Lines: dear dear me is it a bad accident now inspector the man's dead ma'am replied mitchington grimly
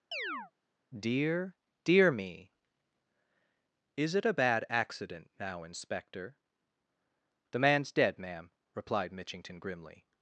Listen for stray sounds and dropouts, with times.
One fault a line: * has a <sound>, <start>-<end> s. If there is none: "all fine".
* has a chirp, 0.1-0.5 s